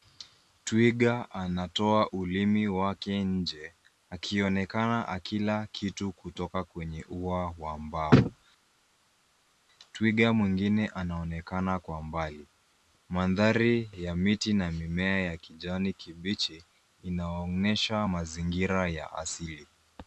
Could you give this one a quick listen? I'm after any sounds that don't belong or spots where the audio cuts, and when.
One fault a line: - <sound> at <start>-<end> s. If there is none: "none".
none